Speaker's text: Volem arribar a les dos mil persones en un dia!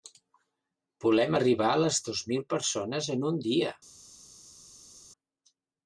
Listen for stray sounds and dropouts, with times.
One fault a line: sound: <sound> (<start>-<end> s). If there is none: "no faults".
no faults